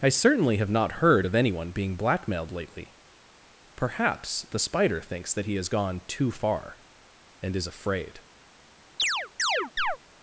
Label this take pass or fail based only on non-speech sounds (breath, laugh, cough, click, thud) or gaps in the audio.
fail